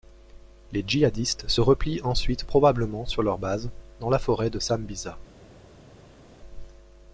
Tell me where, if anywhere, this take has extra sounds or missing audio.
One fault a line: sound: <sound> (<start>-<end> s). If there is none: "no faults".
no faults